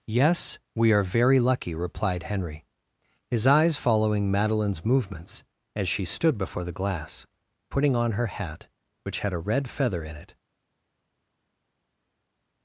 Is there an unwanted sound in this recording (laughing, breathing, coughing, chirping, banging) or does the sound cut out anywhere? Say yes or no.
no